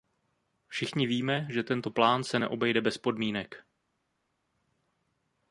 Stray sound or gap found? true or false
false